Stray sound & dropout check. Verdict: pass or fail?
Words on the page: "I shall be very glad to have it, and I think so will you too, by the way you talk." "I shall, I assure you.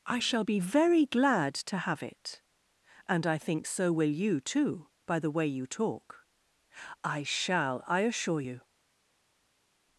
pass